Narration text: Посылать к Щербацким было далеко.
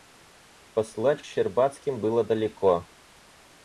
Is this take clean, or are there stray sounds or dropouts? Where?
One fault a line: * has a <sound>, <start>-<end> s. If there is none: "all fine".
all fine